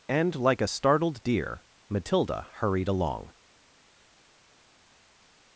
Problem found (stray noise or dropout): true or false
false